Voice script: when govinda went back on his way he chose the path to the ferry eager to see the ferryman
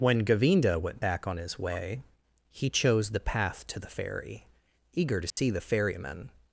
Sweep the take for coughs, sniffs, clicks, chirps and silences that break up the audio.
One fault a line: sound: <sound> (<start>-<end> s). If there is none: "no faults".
sound: dropout (5.3-5.4 s)